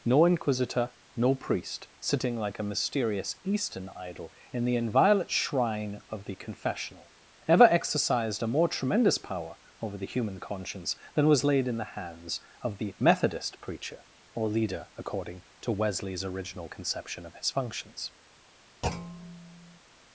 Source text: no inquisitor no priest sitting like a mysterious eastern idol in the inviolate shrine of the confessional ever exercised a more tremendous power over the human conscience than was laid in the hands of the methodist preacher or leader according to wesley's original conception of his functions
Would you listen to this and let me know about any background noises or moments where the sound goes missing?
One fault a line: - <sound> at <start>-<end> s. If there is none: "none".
- thud at 18.8-19.8 s